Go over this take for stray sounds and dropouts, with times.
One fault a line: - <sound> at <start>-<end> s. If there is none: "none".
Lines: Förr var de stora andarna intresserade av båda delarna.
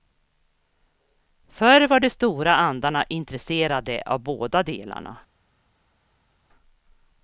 none